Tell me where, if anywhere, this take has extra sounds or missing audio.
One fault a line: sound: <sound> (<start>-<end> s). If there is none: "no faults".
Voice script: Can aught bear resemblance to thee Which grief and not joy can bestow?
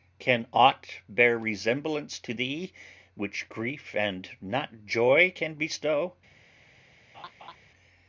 sound: laugh (7.1-7.6 s)